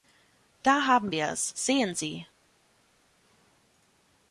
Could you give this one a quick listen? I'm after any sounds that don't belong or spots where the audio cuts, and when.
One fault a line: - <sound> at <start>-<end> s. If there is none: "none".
none